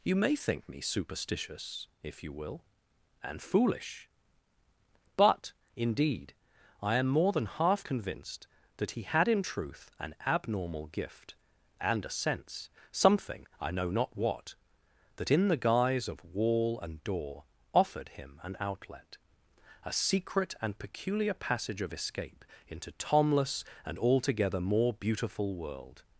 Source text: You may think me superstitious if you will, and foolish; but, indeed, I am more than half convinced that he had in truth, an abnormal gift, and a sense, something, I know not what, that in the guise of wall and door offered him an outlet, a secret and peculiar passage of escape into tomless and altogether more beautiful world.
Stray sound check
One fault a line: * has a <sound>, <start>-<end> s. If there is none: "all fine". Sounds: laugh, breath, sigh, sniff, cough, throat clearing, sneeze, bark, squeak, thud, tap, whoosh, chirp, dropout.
all fine